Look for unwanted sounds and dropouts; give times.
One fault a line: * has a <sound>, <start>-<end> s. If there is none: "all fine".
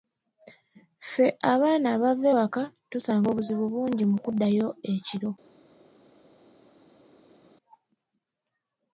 all fine